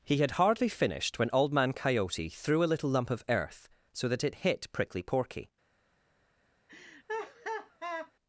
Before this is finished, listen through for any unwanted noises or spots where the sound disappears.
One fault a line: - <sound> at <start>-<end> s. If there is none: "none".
- laugh at 6.7-8.1 s